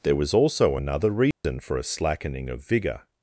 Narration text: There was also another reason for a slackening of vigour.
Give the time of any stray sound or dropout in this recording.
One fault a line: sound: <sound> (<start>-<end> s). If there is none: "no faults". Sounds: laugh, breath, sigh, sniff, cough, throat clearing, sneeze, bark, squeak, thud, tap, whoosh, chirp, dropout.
sound: dropout (1.3-1.4 s)